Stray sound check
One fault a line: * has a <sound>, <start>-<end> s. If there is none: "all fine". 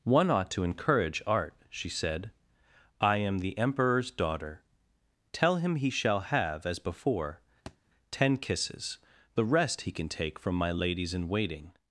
* has a thud, 7.7-7.8 s